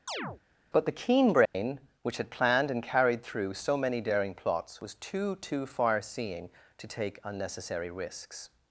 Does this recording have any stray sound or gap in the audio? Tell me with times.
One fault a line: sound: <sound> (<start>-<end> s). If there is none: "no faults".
sound: chirp (0.1-0.4 s)
sound: dropout (1.5-1.5 s)